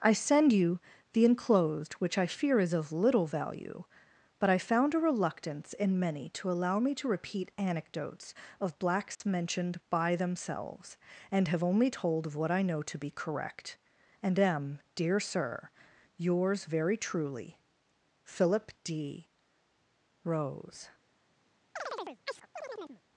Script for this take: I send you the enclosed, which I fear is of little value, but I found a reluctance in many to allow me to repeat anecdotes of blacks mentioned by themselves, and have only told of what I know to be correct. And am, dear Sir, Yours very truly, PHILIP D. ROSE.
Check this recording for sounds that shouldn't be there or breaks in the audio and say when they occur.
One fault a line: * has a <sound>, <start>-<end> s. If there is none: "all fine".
* has a dropout, 9.1-9.2 s
* has a chirp, 21.8-23.0 s